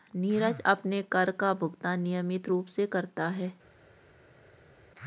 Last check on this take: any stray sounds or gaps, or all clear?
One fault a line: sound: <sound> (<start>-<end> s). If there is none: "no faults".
no faults